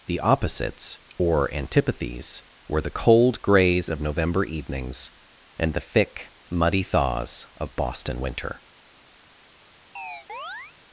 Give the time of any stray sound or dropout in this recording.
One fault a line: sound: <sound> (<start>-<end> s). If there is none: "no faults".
sound: chirp (10.0-10.8 s)